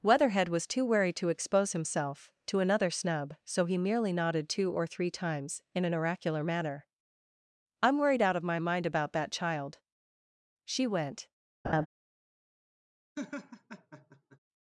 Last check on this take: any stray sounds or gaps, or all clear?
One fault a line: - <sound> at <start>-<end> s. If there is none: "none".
- laugh at 11.6-11.9 s
- laugh at 13.1-14.4 s